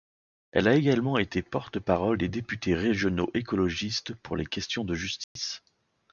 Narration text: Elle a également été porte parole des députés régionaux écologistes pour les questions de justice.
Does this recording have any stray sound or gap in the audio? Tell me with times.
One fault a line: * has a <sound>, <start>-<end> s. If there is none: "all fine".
* has a dropout, 5.2-5.4 s